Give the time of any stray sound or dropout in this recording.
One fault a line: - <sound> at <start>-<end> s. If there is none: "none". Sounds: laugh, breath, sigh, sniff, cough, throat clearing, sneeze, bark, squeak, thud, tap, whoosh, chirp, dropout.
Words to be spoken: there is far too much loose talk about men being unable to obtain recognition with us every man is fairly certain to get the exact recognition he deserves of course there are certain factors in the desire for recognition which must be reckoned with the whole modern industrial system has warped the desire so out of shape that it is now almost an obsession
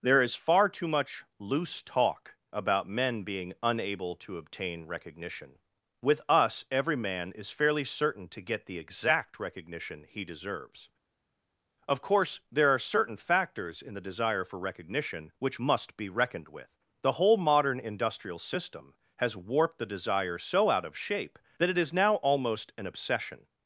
none